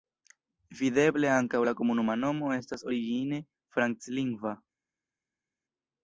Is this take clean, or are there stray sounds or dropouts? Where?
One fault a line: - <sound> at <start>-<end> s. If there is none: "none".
none